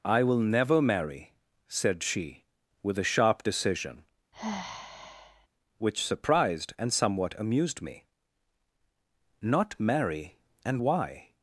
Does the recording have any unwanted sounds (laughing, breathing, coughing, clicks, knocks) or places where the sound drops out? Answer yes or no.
yes